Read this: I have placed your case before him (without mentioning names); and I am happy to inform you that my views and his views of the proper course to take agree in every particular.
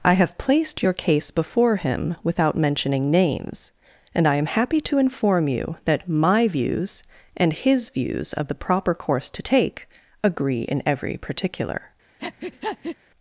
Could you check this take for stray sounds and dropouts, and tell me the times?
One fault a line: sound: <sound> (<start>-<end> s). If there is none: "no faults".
sound: breath (12.2-13.0 s)